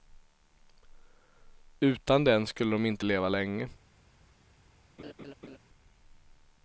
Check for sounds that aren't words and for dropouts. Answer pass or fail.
fail